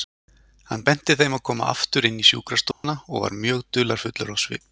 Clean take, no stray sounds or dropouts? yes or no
no